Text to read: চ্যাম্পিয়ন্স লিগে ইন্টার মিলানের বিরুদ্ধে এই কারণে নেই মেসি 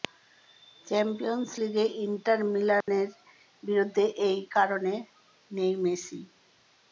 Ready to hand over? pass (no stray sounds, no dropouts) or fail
fail